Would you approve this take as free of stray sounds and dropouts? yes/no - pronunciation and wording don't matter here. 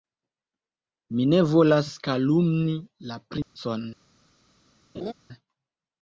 no